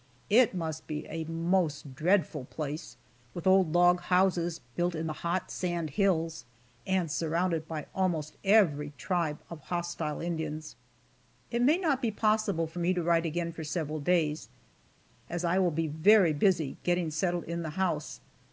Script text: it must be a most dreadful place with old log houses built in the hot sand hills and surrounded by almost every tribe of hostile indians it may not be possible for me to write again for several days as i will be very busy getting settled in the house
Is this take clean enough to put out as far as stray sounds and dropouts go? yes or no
yes